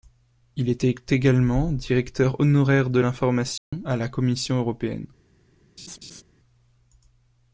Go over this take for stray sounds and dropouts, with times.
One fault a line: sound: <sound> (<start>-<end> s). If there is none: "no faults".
sound: dropout (3.6-3.7 s)
sound: laugh (5.8-6.2 s)